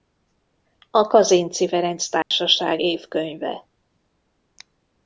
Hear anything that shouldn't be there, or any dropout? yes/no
yes